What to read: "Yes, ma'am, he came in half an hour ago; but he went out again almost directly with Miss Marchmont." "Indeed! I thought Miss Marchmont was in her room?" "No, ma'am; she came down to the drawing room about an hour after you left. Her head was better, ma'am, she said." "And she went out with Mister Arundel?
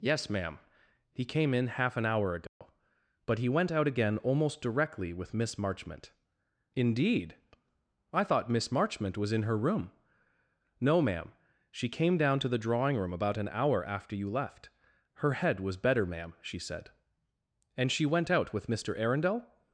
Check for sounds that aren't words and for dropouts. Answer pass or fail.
fail